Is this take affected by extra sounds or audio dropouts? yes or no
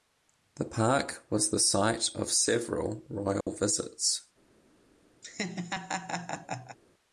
yes